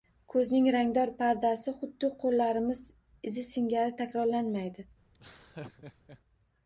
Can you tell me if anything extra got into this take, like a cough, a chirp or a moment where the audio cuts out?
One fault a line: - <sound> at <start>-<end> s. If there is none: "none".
- laugh at 5.1-6.2 s